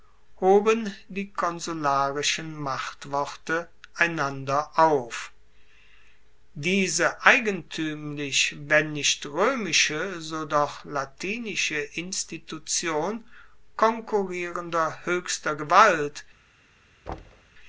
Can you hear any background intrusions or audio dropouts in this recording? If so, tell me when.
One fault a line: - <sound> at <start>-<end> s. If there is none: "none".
- thud at 17.1-17.5 s